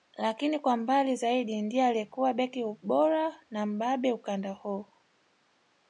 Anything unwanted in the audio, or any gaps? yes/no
no